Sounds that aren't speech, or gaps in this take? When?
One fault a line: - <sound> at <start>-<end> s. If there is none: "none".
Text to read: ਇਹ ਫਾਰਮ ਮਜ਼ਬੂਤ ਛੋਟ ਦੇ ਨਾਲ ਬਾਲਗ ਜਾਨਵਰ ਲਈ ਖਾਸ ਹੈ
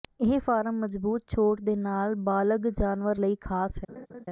- laugh at 3.9-4.3 s